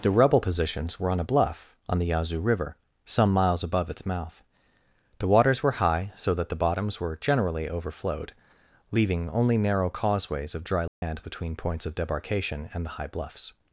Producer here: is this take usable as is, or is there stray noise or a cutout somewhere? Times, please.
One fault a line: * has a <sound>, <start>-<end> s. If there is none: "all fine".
* has a dropout, 10.9-11.0 s